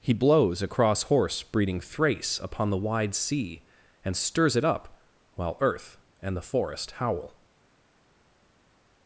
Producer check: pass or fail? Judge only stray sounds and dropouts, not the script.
pass